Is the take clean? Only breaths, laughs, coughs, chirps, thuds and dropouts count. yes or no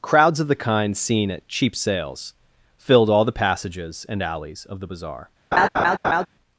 no